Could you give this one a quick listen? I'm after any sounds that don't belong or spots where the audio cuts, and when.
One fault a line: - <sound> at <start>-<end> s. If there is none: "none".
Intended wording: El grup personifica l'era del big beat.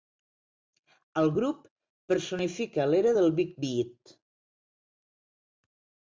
none